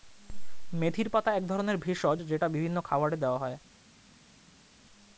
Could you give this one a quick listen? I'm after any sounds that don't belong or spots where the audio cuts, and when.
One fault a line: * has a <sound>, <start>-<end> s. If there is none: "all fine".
all fine